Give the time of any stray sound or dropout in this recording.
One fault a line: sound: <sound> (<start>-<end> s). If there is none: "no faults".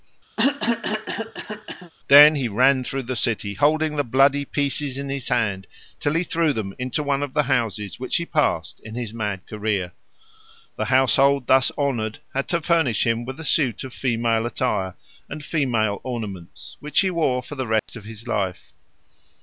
sound: cough (0.4-1.9 s)
sound: dropout (17.8-17.9 s)